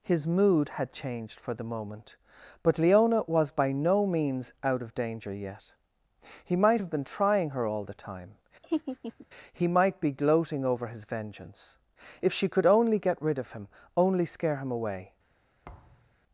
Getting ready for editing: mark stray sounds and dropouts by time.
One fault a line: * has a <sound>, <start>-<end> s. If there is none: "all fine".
* has a laugh, 8.6-9.3 s
* has a thud, 15.6-16.2 s